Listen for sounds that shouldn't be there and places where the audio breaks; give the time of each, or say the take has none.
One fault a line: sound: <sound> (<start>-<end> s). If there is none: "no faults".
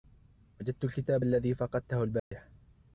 sound: dropout (2.2-2.3 s)